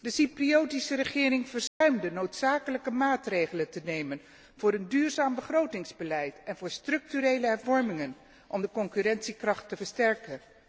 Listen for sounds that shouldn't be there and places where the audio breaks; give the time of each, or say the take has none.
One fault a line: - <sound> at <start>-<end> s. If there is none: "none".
- dropout at 1.7-1.8 s